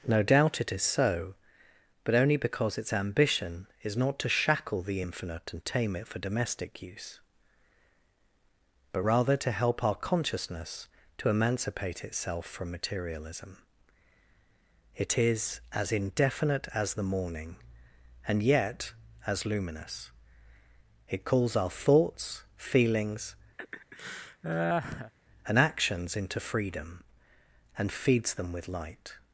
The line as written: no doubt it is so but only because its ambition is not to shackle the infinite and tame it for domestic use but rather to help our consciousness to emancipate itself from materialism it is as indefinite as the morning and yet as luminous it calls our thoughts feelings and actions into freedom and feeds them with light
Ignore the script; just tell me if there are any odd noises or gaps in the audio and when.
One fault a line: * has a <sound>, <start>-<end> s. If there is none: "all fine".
* has a laugh, 23.6-25.1 s